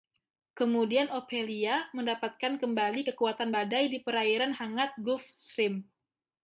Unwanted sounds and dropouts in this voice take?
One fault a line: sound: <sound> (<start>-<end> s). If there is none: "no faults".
no faults